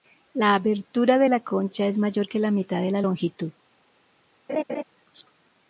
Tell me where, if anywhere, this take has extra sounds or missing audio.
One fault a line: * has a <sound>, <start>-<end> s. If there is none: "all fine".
* has a laugh, 4.5-4.8 s